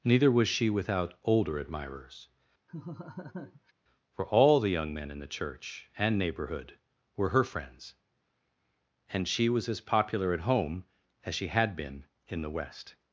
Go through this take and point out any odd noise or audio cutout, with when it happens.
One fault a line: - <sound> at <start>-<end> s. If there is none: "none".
- laugh at 2.7-3.7 s